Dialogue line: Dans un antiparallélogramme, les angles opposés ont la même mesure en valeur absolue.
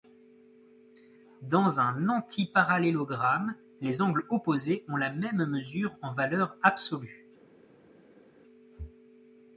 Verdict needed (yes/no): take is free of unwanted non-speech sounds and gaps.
yes